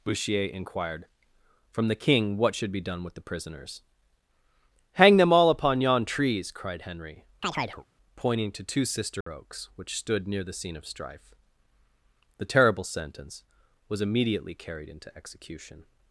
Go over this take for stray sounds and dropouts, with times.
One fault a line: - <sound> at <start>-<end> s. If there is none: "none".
- chirp at 7.4-7.8 s
- dropout at 9.2-9.3 s